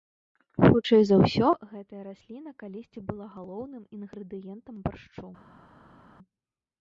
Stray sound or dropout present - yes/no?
no